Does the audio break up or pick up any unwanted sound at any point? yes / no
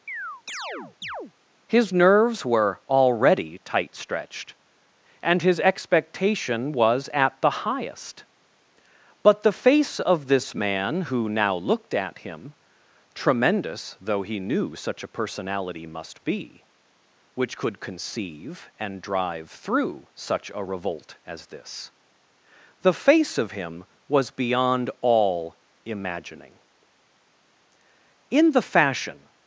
yes